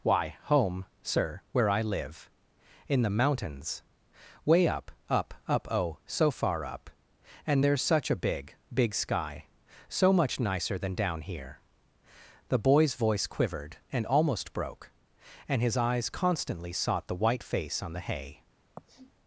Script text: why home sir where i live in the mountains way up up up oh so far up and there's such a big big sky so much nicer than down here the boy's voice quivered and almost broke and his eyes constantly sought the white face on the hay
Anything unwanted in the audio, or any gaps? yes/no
yes